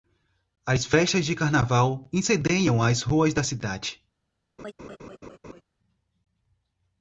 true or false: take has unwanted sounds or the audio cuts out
true